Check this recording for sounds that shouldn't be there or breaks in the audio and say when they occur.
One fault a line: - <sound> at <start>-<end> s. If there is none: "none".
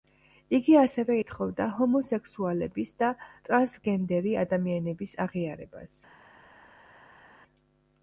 none